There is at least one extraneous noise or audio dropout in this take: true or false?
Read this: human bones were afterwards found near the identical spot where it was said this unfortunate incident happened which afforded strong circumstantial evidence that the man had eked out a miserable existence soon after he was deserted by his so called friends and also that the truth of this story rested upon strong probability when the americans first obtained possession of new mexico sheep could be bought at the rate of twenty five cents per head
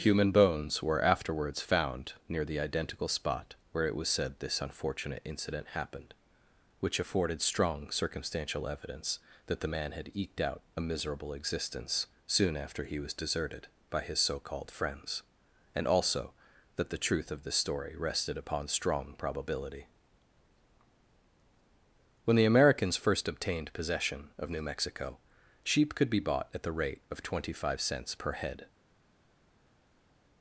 false